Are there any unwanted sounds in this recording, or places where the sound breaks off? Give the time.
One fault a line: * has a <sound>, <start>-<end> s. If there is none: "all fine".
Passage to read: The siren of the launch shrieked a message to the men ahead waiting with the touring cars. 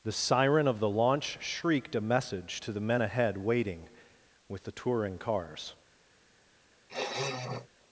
* has a sniff, 6.9-7.7 s